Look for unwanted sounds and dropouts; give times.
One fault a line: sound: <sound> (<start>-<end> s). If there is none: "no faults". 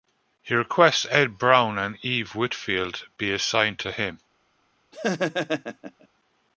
sound: laugh (4.9-6.1 s)